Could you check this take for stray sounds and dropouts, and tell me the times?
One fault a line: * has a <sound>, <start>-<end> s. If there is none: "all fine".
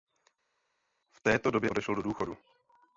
all fine